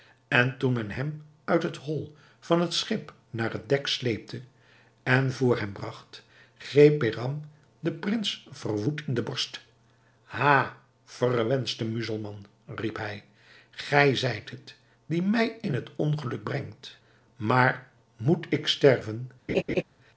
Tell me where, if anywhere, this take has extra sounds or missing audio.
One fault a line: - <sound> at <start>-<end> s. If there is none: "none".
- laugh at 19.5-19.8 s